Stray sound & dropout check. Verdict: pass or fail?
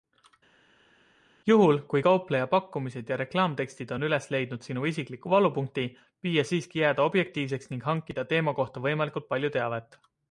pass